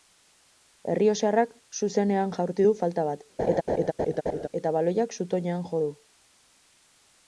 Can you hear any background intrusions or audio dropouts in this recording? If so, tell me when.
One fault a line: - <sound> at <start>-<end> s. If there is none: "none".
- laugh at 3.4-4.5 s